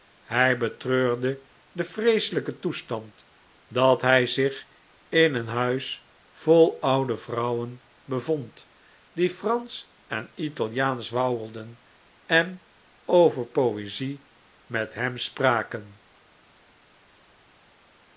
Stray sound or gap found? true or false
false